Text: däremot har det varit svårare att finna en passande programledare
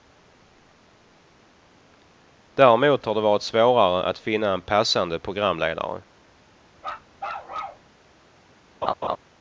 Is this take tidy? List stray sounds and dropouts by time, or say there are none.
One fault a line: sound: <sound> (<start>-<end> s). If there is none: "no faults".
sound: bark (6.8-7.9 s)
sound: laugh (8.8-9.2 s)